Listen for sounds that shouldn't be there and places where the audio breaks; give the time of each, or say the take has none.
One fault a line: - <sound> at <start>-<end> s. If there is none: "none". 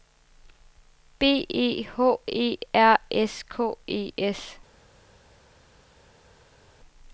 none